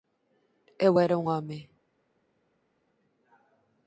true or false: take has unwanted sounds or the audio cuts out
false